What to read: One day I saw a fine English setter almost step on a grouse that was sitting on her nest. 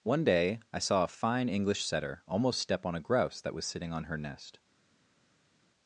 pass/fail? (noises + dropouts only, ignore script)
pass